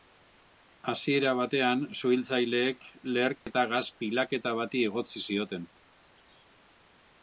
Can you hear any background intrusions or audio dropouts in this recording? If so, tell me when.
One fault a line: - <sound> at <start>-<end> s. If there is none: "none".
- dropout at 3.4-3.5 s